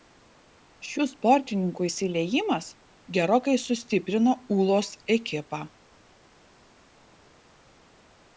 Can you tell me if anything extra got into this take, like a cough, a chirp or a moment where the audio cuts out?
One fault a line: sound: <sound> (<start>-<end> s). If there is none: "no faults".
no faults